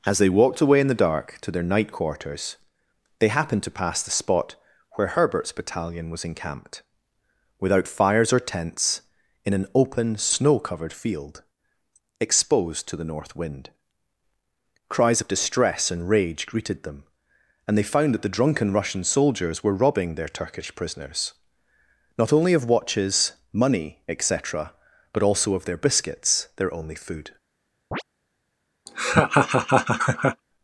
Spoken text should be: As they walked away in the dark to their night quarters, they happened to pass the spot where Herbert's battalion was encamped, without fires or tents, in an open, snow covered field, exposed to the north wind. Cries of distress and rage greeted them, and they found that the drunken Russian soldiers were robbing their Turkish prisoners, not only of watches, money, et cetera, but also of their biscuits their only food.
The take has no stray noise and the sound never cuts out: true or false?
false